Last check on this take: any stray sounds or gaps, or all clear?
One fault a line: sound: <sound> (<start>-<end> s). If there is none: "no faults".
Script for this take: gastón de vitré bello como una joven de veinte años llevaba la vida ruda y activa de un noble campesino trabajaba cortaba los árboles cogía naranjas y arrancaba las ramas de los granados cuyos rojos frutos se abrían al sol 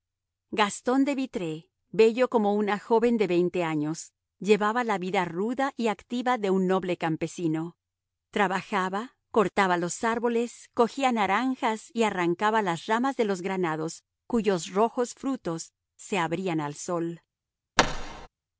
sound: thud (17.8-18.3 s)